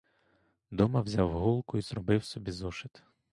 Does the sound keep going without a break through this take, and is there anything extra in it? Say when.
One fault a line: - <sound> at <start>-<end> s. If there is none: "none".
none